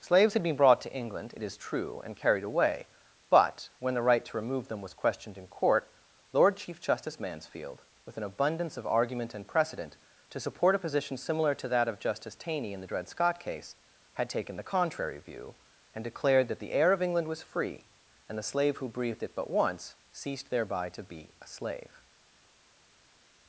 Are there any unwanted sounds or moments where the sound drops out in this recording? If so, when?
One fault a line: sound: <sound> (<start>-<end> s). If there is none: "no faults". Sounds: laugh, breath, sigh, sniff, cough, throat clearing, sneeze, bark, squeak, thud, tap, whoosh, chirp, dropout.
no faults